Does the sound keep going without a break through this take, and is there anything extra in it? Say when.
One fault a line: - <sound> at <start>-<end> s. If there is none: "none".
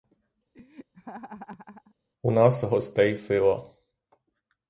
- laugh at 0.5-2.0 s